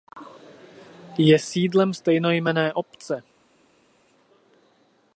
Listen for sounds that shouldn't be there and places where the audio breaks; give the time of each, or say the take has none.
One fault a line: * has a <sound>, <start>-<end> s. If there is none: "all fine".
all fine